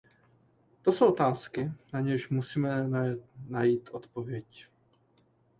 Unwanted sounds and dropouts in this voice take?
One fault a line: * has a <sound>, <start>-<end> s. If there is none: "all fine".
all fine